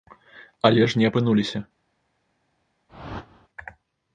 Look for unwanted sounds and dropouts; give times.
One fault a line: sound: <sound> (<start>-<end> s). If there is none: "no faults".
sound: whoosh (2.9-3.5 s)